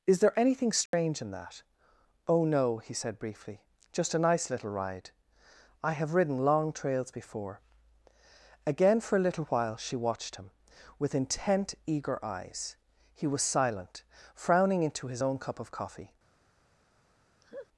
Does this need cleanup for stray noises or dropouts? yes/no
yes